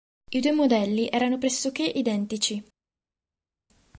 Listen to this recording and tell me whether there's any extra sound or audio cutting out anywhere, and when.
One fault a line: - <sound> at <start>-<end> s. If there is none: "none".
none